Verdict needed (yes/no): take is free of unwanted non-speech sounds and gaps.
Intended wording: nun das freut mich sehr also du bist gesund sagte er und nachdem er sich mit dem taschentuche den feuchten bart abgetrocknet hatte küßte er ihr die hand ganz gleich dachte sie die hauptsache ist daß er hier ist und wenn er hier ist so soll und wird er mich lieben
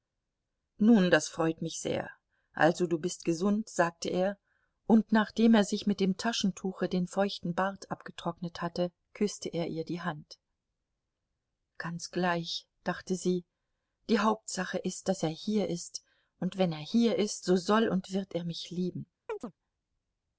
no